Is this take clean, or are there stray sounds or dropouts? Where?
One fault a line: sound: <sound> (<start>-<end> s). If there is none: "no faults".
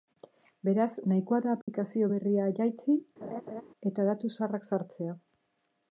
sound: dropout (1.6-1.7 s)
sound: laugh (3.2-3.6 s)